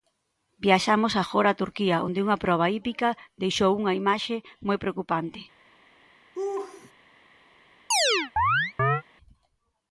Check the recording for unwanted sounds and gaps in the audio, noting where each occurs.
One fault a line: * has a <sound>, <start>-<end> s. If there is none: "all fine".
* has a laugh, 6.3-6.9 s
* has a chirp, 7.9-9.0 s